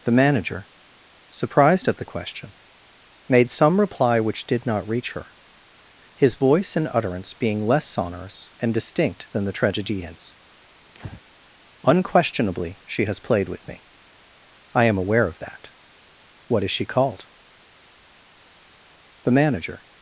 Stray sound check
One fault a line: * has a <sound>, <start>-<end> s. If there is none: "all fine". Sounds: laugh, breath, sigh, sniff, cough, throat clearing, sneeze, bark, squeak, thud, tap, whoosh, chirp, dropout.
* has a breath, 10.9-11.2 s